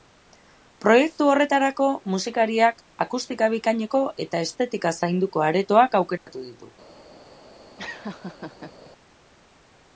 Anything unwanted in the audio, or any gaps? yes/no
yes